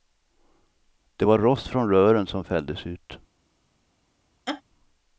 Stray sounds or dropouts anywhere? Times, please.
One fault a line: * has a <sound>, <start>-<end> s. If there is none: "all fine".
* has a laugh, 4.5-4.6 s